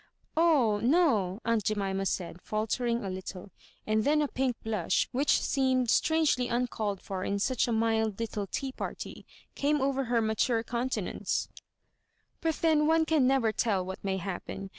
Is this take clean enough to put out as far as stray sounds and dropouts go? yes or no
yes